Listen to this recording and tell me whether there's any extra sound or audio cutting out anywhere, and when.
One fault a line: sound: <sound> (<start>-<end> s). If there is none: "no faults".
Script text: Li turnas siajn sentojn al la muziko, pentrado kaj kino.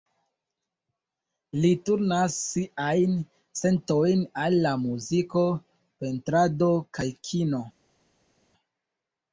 no faults